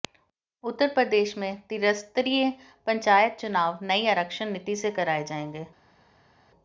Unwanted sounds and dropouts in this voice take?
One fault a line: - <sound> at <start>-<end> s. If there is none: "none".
none